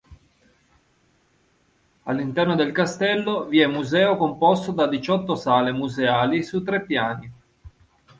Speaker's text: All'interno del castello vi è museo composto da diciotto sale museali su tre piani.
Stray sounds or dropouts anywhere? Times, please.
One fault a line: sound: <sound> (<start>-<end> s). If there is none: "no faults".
no faults